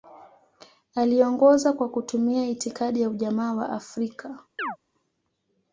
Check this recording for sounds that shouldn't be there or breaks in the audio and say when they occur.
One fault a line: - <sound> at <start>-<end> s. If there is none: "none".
- chirp at 4.6-4.8 s